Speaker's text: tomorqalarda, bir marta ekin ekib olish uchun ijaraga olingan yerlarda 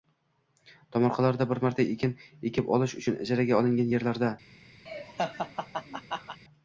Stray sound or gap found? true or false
true